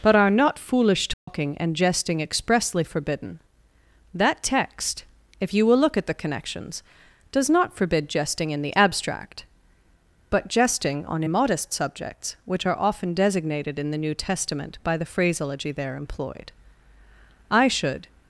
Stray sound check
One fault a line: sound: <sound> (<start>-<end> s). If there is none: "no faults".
sound: dropout (1.1-1.3 s)